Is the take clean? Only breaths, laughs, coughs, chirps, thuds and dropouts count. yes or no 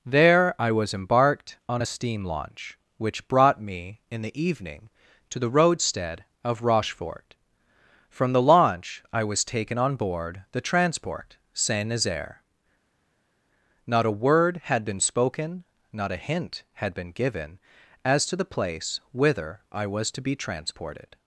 yes